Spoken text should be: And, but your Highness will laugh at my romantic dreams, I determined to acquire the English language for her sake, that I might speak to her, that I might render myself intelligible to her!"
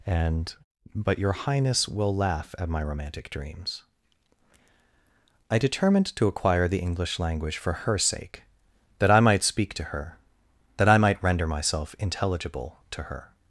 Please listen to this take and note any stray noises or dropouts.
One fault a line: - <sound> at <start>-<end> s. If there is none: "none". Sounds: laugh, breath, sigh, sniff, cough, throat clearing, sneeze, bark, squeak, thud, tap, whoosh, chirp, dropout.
none